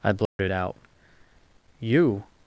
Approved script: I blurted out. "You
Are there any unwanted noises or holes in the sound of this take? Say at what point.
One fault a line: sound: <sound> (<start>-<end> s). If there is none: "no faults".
sound: dropout (0.3-0.4 s)